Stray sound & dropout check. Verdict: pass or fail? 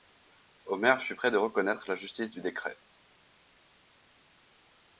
pass